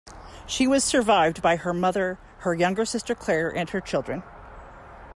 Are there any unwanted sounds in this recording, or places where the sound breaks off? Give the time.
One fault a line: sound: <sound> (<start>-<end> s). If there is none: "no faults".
no faults